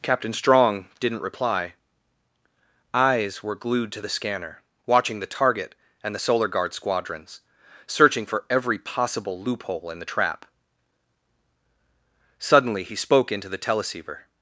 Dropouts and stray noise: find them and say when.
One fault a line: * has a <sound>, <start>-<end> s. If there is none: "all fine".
all fine